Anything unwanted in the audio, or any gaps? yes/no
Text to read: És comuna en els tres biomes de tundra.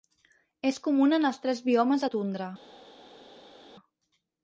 no